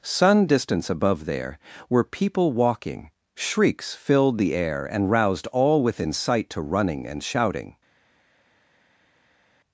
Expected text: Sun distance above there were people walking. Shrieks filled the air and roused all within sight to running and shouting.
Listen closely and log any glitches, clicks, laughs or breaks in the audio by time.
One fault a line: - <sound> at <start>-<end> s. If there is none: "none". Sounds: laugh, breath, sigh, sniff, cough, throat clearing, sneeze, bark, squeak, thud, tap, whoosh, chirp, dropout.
none